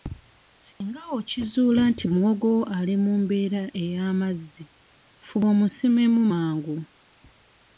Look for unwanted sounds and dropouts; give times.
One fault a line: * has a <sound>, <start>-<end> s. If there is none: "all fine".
* has a dropout, 0.7-0.8 s